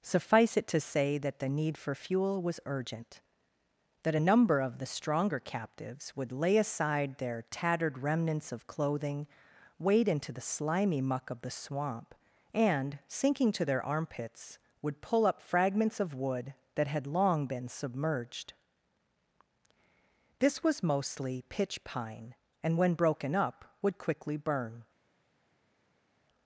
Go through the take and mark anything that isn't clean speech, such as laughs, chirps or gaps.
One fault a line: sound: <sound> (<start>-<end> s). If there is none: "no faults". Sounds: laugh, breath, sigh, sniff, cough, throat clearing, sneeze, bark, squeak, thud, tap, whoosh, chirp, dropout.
no faults